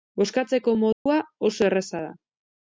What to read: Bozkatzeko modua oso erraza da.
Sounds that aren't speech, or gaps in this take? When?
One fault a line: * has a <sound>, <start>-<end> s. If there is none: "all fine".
* has a dropout, 0.9-1.1 s